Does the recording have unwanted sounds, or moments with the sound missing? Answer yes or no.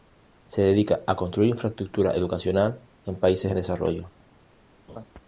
yes